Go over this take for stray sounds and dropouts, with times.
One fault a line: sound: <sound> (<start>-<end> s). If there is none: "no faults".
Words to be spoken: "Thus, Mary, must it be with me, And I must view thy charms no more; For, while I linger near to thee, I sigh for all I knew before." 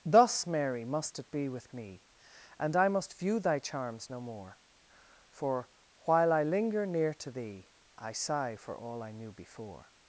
no faults